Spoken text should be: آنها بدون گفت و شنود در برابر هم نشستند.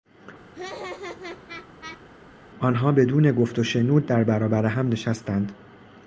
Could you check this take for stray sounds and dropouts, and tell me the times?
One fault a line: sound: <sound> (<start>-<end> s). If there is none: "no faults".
sound: laugh (0.5-2.0 s)